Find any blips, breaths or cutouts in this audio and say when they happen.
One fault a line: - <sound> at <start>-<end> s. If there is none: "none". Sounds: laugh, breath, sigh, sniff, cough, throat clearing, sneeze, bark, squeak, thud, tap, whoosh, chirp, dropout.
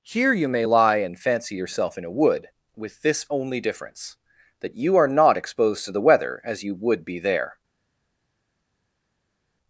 none